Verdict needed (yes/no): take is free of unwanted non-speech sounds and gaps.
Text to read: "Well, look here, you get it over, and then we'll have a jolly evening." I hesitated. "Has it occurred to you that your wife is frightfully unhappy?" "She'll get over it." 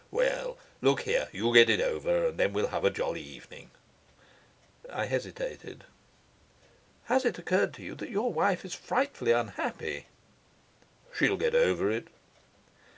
yes